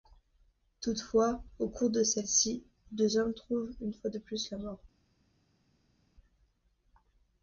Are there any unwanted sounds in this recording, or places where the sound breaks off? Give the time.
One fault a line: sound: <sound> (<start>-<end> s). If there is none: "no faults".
no faults